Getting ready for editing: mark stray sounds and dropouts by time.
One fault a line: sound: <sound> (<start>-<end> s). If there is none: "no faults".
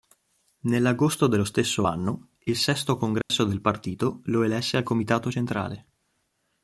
sound: dropout (3.2-3.3 s)